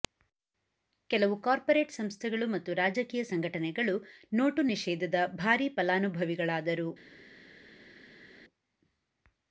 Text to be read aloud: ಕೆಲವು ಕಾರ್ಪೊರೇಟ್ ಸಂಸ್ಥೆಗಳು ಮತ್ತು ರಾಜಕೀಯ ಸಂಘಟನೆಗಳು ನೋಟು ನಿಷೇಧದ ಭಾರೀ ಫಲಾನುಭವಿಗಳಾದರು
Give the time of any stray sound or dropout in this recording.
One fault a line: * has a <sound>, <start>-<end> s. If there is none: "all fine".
all fine